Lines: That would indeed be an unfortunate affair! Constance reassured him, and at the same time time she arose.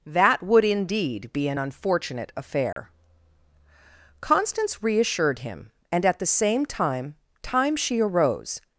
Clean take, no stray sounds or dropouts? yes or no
no